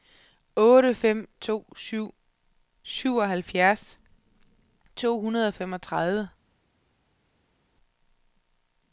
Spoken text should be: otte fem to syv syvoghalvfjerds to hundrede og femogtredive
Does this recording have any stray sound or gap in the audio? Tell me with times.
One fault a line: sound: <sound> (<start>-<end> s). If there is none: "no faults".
no faults